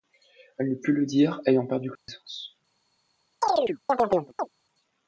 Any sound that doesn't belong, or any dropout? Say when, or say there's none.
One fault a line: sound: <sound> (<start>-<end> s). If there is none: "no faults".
sound: dropout (2.0-2.1 s)
sound: chirp (3.4-4.5 s)